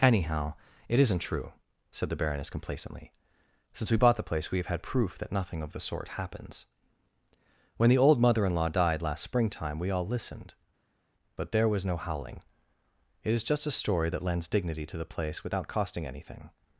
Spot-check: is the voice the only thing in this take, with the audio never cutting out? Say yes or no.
yes